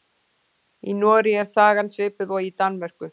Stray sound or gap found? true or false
false